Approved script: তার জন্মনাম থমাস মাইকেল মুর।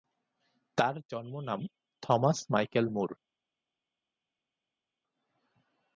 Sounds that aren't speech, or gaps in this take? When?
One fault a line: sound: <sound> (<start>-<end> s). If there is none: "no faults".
no faults